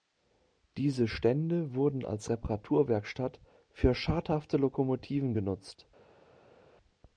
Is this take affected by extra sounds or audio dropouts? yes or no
no